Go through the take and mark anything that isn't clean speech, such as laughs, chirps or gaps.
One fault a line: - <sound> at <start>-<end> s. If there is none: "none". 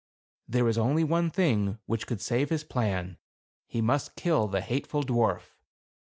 none